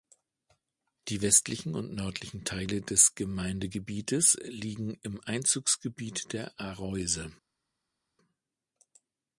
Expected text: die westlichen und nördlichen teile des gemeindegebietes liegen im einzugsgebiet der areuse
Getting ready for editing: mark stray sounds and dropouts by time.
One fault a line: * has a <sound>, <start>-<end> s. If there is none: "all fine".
all fine